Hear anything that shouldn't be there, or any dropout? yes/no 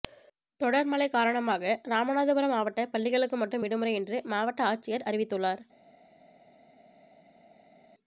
no